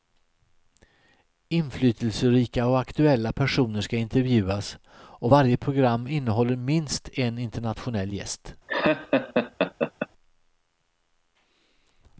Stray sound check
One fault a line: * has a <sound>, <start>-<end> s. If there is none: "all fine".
* has a laugh, 8.7-10.1 s